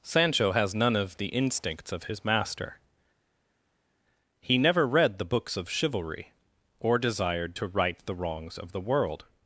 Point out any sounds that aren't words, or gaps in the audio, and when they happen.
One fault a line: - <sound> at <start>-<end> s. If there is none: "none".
none